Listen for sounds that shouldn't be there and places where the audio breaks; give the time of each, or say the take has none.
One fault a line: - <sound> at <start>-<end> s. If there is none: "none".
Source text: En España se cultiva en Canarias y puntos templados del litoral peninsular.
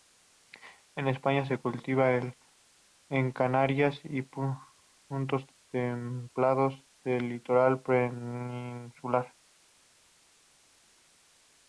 none